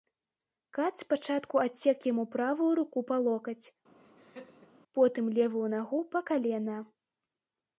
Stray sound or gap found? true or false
true